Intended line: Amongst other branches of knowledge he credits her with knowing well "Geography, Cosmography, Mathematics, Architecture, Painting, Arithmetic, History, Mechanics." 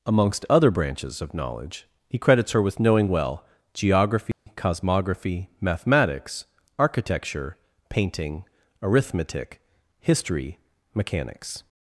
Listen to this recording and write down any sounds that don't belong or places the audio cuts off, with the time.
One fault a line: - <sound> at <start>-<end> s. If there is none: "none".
- dropout at 4.3-4.5 s